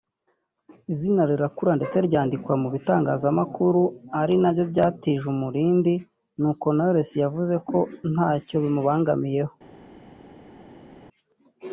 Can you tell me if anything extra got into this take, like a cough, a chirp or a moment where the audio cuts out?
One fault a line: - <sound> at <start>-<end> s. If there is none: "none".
none